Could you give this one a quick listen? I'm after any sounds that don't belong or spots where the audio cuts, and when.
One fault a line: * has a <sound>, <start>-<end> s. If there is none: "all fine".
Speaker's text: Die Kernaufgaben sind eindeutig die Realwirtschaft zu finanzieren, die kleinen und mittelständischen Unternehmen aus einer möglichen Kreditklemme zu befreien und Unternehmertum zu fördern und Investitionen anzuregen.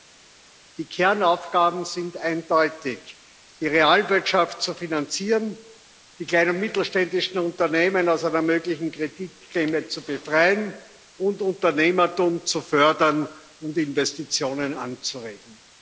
all fine